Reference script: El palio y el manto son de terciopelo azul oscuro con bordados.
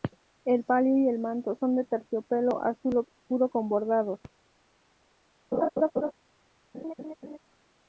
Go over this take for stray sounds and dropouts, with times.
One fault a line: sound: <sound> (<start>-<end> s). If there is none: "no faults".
sound: laugh (5.5-6.1 s)
sound: laugh (6.7-7.4 s)